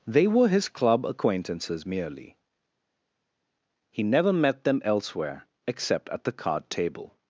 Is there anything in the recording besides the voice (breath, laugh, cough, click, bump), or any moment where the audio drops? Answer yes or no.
no